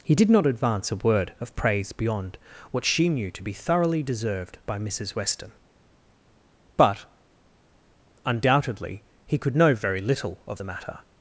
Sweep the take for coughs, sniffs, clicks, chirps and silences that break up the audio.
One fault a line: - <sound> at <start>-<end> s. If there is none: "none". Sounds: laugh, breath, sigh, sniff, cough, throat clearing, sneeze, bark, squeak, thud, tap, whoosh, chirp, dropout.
none